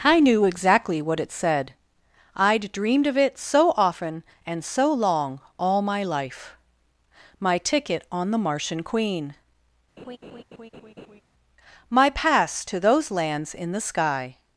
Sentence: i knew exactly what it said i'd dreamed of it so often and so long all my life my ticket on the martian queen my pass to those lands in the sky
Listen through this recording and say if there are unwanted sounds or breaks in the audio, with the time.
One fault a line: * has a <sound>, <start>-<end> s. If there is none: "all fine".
* has a laugh, 10.0-11.2 s